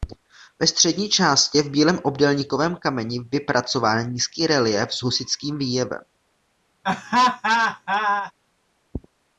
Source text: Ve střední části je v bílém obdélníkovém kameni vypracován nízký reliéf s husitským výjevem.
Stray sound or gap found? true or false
true